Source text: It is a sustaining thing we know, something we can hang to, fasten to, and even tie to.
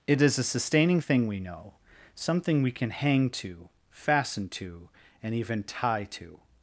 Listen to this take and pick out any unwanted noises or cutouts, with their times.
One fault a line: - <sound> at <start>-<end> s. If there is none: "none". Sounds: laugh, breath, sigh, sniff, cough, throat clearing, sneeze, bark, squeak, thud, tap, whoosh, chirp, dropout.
none